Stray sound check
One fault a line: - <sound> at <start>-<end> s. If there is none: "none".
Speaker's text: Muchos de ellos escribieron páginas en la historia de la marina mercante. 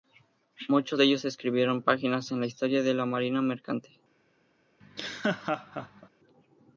- laugh at 4.8-6.1 s